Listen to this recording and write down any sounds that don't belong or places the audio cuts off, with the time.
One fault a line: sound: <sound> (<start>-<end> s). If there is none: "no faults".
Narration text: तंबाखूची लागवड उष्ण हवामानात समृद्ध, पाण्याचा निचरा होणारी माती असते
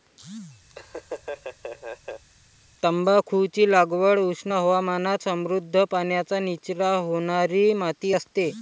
sound: laugh (0.7-2.2 s)